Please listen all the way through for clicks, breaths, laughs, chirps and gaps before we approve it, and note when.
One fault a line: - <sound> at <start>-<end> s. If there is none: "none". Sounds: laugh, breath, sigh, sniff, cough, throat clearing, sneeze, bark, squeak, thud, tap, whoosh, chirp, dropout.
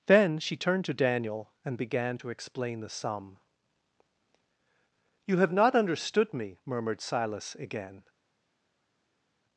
none